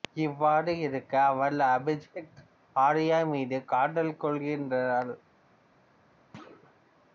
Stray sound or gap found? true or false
true